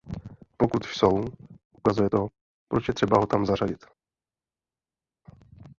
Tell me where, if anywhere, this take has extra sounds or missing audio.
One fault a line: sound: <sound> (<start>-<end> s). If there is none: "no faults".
no faults